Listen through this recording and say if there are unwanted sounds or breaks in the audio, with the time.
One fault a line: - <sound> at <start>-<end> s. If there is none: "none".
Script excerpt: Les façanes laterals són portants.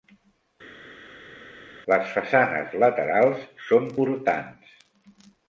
none